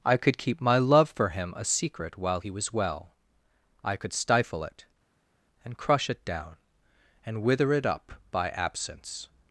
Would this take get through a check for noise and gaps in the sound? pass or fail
pass